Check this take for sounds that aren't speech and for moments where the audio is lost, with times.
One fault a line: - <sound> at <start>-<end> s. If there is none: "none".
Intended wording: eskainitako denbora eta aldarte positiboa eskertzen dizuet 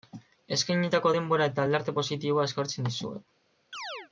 - chirp at 3.7-4.1 s